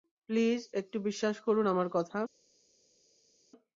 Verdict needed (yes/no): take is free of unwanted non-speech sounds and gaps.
yes